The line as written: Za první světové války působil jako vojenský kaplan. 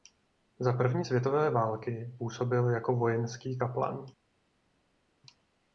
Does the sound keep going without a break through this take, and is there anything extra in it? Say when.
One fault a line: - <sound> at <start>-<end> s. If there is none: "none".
none